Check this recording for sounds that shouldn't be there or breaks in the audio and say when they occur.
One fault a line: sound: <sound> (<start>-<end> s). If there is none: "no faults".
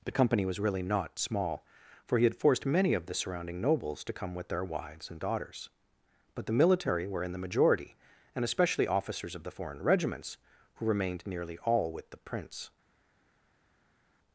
no faults